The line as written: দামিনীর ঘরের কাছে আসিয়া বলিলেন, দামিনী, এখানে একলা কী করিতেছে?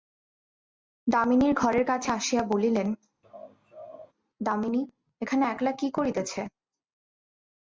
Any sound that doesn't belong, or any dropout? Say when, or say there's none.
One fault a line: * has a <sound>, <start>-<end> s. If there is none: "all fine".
* has a laugh, 3.2-4.1 s